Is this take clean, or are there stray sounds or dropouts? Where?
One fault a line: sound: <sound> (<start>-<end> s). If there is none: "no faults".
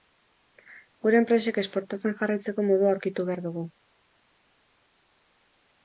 no faults